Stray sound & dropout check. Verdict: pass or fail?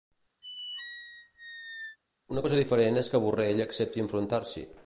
fail